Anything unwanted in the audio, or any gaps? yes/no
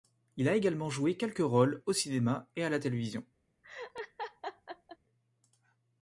yes